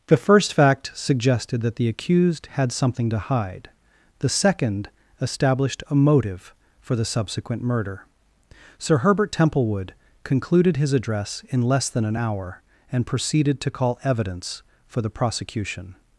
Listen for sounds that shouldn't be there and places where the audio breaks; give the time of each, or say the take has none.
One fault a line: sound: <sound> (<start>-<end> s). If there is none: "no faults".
no faults